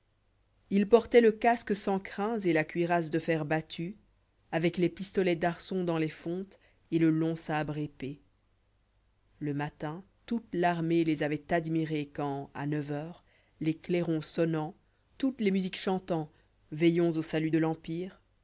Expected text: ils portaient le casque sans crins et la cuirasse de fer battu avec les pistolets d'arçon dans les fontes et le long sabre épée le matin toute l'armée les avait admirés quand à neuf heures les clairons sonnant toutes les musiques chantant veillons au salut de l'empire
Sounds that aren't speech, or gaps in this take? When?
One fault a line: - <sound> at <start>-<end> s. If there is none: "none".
none